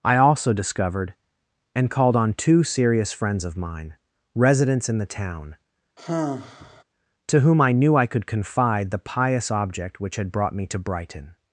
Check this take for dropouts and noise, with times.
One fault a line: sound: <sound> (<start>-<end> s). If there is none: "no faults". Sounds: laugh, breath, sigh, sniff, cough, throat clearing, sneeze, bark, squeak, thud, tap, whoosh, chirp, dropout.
sound: sigh (6.0-6.8 s)